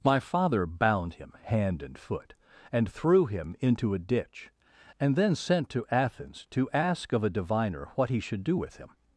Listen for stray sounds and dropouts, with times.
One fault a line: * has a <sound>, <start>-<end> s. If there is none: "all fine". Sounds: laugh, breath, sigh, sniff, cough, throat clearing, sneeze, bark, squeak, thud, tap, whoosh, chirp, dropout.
all fine